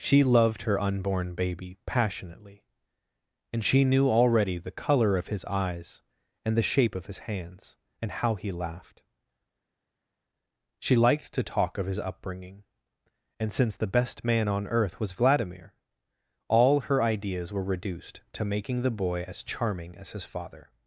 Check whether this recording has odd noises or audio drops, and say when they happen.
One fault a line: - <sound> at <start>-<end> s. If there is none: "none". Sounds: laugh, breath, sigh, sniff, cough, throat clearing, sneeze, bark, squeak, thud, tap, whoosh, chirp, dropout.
none